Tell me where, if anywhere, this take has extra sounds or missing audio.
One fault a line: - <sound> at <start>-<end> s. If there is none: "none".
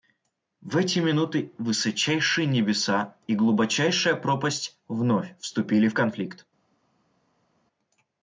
none